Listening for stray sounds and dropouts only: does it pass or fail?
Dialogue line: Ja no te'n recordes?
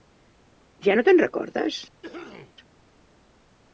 fail